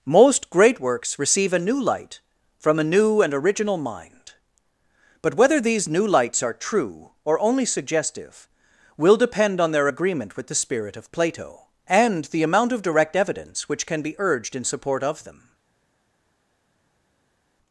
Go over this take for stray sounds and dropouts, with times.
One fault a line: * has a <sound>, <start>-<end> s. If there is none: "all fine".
all fine